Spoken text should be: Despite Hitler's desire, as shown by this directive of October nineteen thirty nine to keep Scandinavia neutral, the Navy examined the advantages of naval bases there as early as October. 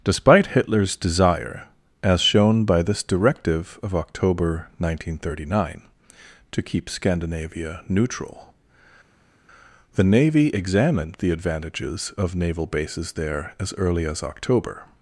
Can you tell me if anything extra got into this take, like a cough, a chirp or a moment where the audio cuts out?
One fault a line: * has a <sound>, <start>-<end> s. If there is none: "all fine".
all fine